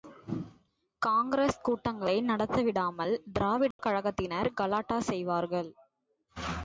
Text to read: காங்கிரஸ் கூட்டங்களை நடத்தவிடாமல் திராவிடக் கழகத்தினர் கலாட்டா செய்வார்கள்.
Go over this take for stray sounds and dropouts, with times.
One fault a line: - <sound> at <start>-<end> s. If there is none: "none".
- dropout at 3.7-3.8 s